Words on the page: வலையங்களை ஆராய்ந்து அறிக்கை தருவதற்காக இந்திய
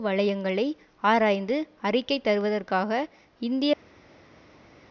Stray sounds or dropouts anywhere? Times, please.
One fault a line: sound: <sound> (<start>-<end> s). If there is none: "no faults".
no faults